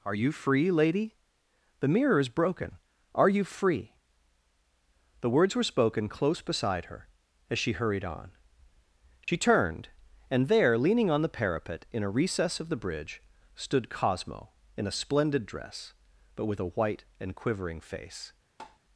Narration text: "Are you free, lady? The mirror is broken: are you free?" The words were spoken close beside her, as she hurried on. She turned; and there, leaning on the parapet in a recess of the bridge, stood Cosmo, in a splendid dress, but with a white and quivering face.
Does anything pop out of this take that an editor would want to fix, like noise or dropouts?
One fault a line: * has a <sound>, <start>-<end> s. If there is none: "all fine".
* has a dropout, 9.2-9.3 s
* has a tap, 18.6-18.8 s